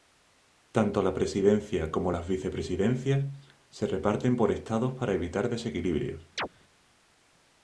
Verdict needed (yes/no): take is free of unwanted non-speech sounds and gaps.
no